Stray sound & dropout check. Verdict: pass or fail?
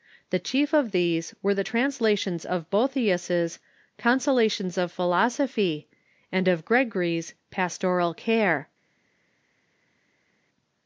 pass